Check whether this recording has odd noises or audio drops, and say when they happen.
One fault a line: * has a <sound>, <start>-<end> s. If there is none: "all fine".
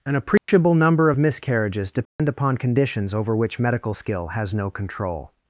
* has a dropout, 0.4-0.5 s
* has a dropout, 2.1-2.2 s